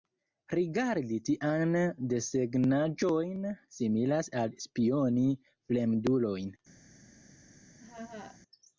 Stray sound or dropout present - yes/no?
yes